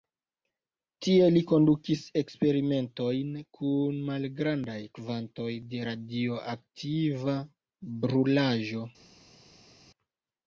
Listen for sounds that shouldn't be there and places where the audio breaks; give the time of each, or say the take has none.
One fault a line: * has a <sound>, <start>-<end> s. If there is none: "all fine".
all fine